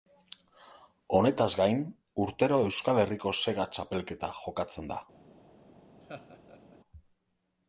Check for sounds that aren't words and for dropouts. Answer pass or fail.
fail